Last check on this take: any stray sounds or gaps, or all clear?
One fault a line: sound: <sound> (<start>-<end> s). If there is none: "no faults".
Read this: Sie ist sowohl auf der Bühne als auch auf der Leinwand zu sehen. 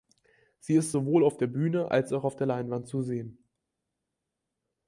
no faults